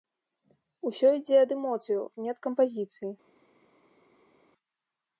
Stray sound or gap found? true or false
false